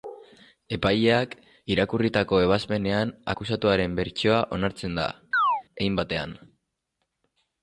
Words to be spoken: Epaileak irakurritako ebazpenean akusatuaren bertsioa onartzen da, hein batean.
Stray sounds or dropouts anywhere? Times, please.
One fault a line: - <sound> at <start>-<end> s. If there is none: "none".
- chirp at 5.3-5.6 s